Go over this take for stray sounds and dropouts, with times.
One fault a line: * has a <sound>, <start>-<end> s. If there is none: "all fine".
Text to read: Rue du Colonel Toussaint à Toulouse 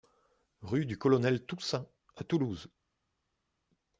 all fine